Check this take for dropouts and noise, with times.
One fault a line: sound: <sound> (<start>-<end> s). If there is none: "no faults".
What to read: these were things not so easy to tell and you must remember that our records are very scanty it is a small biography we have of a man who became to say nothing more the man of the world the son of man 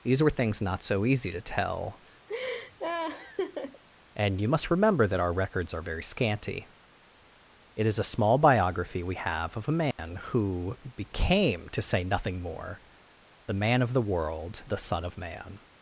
sound: laugh (2.3-3.8 s)
sound: dropout (9.9-10.0 s)